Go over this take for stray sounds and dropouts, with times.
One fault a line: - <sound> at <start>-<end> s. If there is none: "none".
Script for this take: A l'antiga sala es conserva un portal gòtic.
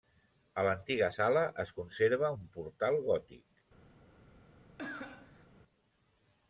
- cough at 4.8-5.5 s